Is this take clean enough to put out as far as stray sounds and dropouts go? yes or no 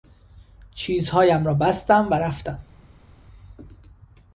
yes